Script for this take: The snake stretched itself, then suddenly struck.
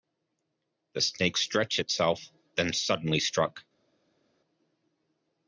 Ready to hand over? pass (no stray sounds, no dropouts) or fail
pass